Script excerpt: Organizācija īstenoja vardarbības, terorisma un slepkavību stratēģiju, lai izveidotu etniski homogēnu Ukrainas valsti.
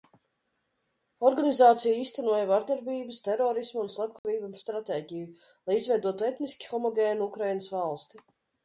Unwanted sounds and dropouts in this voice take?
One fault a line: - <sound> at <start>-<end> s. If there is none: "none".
- dropout at 4.2-4.2 s